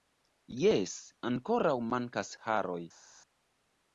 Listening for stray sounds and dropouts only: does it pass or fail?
pass